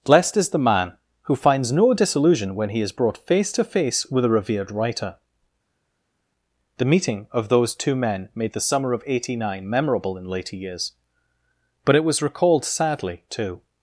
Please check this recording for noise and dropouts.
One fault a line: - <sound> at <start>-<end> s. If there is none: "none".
none